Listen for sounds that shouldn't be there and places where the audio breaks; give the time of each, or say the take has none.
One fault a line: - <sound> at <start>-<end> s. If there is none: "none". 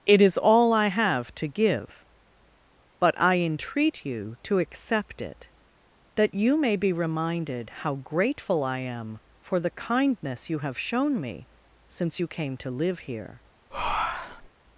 - breath at 13.7-14.5 s